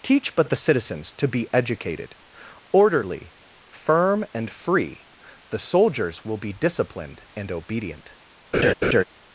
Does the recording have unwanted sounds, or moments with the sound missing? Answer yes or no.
yes